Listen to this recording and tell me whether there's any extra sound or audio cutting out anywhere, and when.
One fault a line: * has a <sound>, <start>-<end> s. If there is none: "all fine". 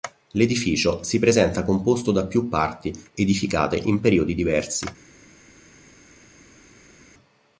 all fine